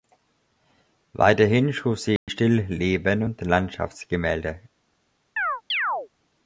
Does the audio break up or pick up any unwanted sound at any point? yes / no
yes